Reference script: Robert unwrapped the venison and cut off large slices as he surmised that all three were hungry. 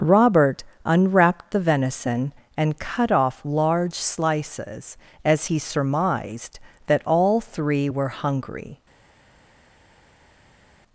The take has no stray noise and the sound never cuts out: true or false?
true